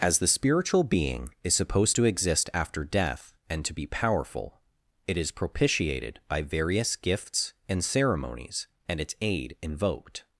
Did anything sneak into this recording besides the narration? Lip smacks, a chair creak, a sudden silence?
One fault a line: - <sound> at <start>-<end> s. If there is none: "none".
none